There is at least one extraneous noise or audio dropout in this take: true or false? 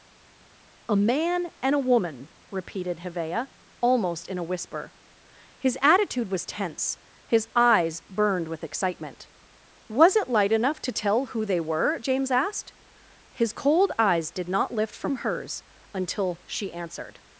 false